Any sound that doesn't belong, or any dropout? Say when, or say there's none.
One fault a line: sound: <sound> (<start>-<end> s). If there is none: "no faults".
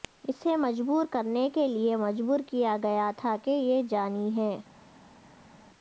no faults